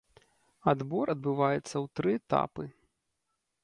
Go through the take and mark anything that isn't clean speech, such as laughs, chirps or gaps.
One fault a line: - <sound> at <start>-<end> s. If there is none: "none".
none